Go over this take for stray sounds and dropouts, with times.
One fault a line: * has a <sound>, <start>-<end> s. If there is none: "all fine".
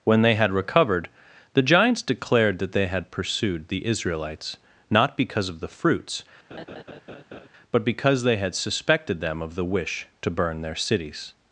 * has a laugh, 6.5-7.5 s